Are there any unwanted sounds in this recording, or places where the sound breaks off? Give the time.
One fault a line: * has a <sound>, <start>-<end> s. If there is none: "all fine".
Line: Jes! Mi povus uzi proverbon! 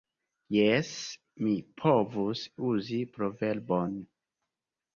all fine